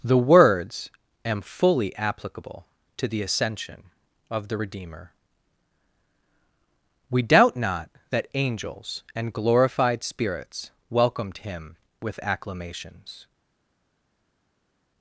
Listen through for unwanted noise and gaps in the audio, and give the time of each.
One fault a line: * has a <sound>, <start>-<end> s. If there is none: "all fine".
all fine